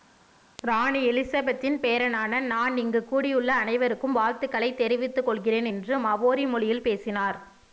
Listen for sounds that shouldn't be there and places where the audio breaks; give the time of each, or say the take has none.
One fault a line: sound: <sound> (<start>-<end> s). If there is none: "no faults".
no faults